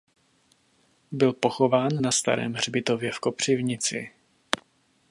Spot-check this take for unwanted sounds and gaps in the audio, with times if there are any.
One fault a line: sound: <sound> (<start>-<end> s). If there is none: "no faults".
no faults